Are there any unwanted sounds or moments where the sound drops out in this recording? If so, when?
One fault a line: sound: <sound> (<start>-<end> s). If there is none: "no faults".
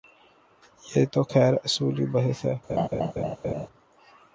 sound: laugh (2.7-3.7 s)